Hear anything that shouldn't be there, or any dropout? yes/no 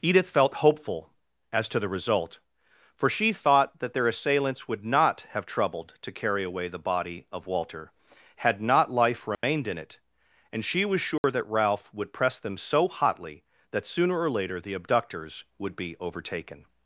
yes